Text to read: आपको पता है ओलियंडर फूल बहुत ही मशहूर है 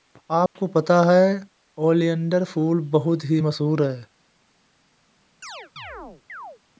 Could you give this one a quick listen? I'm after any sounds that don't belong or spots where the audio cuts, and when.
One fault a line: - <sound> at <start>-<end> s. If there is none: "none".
- dropout at 0.5-0.6 s
- chirp at 5.4-6.6 s